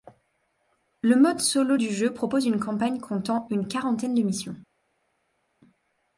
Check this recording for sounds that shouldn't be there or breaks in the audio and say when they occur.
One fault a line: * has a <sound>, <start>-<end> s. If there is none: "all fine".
all fine